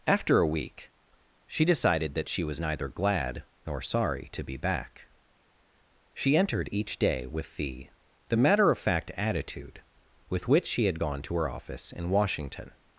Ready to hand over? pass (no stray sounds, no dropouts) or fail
pass